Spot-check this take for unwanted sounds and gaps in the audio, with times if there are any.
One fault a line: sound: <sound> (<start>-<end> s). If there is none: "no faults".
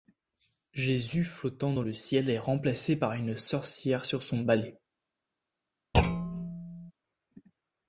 sound: thud (5.9-6.9 s)